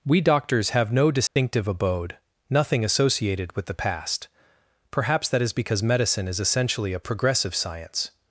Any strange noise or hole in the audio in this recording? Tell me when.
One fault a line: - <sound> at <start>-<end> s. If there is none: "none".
- dropout at 1.3-1.4 s